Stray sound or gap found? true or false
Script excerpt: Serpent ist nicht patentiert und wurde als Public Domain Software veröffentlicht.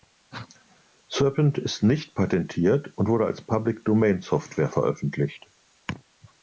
false